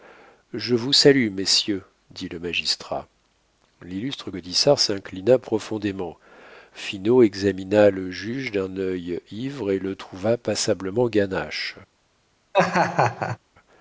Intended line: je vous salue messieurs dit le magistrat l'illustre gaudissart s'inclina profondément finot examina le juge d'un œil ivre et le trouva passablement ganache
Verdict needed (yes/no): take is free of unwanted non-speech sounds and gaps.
no